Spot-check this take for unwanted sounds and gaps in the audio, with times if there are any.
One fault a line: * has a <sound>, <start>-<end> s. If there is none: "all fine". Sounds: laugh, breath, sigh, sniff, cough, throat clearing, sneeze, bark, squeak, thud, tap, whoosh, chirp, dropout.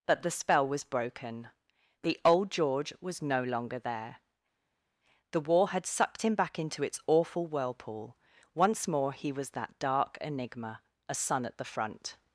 all fine